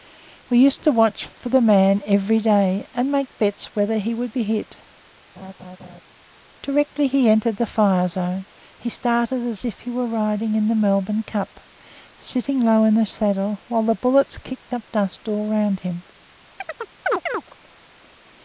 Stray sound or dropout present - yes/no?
yes